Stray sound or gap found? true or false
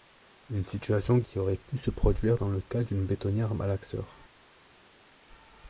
false